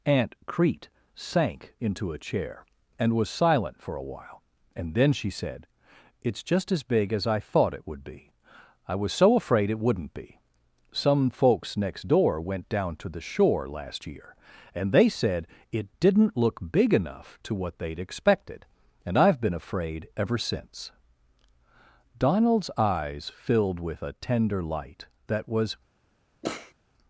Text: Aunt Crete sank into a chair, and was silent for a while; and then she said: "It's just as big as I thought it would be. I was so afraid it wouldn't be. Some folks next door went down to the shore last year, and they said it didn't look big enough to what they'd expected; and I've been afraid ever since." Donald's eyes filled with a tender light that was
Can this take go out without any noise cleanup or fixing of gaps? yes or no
no